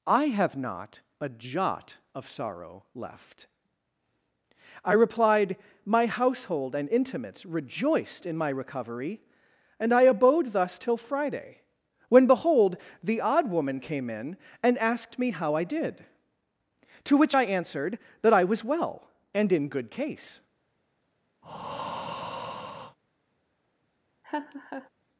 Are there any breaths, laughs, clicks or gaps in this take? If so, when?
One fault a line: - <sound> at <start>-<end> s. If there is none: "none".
- breath at 21.4-23.0 s
- laugh at 24.2-24.9 s